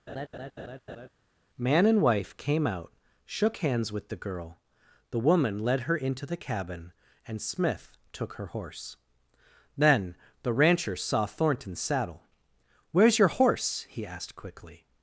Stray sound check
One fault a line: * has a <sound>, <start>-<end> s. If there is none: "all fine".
* has a laugh, 0.1-1.1 s